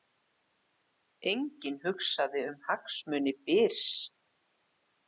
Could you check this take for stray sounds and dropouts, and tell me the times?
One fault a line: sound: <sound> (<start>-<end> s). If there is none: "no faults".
no faults